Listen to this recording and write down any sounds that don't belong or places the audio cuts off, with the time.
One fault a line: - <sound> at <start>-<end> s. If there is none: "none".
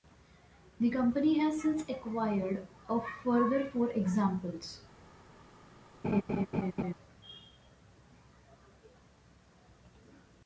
- laugh at 6.0-6.9 s